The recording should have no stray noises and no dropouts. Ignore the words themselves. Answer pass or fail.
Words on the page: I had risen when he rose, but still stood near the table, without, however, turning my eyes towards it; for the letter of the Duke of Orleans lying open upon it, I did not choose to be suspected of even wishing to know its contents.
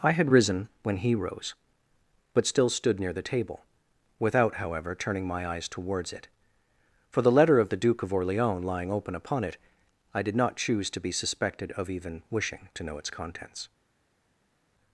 pass